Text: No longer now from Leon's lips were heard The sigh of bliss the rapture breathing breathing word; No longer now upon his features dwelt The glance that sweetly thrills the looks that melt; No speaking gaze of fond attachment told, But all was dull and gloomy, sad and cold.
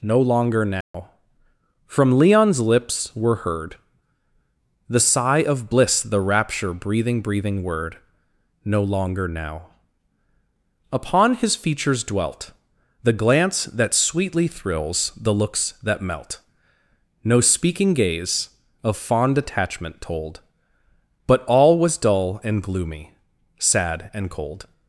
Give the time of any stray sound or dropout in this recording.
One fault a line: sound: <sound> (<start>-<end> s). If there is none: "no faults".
sound: dropout (0.8-0.9 s)